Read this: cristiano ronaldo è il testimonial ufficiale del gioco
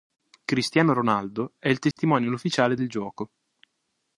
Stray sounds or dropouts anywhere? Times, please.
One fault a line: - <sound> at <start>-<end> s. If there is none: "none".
- dropout at 1.9-2.0 s